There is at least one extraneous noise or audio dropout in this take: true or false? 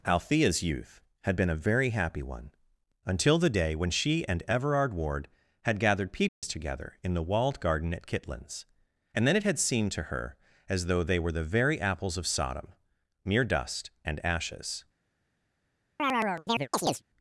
true